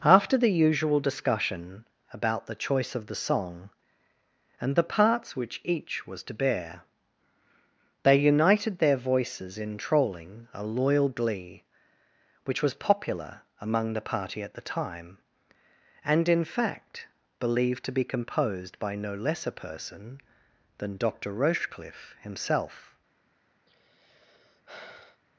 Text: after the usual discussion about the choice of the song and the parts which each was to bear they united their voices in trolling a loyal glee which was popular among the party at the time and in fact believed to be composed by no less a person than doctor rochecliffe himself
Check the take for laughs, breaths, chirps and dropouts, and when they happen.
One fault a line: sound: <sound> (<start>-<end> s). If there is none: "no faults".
sound: sigh (23.7-25.2 s)